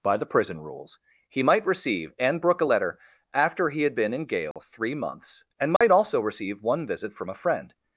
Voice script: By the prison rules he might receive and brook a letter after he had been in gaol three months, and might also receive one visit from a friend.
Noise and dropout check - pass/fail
fail